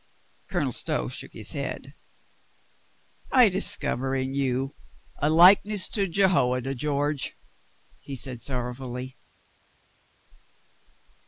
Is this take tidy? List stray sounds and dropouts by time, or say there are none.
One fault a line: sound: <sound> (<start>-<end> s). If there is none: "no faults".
no faults